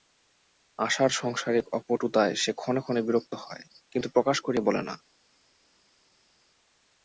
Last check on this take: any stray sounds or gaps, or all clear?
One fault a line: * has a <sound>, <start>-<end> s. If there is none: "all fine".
all fine